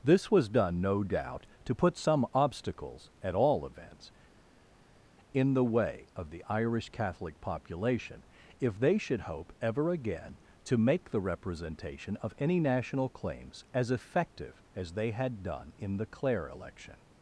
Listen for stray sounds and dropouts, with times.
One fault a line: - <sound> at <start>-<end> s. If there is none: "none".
none